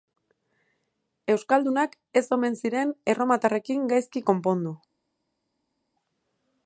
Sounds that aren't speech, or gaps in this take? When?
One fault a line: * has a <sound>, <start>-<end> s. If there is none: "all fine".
all fine